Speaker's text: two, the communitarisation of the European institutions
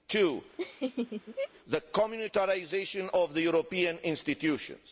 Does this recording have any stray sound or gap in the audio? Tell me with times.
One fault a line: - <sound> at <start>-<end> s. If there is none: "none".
- laugh at 0.6-1.5 s